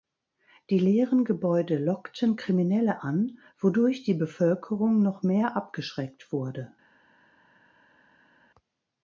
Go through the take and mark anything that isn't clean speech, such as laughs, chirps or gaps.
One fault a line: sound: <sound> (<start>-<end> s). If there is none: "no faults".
no faults